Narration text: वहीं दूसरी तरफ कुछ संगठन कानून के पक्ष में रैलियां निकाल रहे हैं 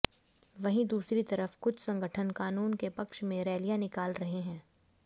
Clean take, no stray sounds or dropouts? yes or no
yes